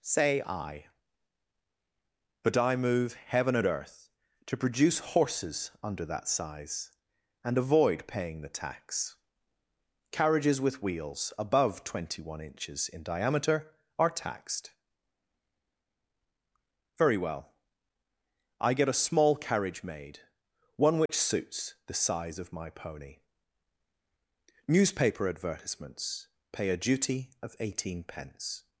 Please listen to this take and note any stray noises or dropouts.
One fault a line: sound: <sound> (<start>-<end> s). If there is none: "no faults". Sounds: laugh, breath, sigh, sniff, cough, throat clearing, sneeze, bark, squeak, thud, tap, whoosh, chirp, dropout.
sound: dropout (21.1-21.1 s)